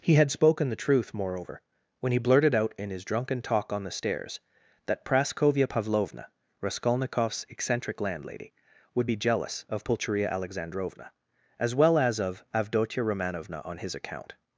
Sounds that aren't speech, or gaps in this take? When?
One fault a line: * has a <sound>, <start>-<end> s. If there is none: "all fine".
all fine